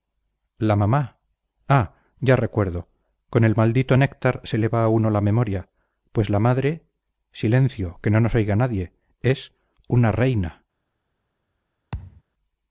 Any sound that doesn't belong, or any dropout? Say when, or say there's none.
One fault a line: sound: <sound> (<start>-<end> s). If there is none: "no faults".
sound: thud (11.9-12.2 s)